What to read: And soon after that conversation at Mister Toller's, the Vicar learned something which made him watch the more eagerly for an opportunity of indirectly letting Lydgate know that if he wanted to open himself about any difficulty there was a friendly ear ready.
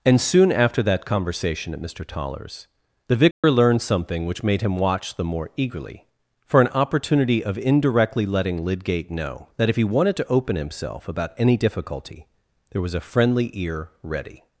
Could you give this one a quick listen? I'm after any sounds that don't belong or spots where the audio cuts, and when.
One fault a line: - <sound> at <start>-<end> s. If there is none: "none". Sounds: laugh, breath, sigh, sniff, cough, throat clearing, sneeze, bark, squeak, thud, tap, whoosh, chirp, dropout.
- dropout at 3.3-3.4 s